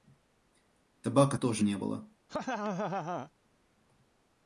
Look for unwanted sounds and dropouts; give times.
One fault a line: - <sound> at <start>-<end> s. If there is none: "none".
- laugh at 2.3-3.3 s